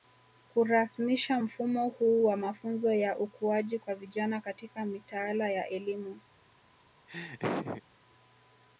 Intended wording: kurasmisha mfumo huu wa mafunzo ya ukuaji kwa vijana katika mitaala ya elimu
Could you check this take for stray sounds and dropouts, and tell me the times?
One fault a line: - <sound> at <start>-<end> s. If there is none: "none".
- laugh at 7.1-7.8 s